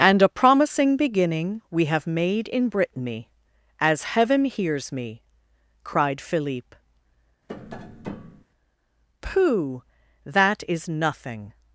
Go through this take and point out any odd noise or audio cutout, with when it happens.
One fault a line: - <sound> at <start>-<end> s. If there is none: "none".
- tap at 7.5-8.4 s